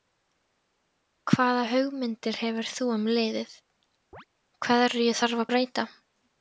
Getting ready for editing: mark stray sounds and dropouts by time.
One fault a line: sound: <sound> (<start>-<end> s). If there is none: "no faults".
sound: chirp (4.1-4.3 s)